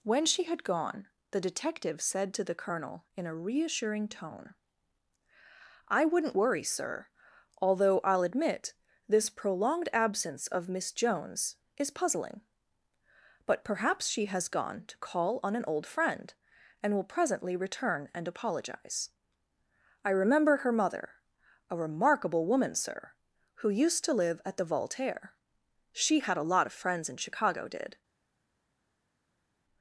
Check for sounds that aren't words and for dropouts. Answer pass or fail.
pass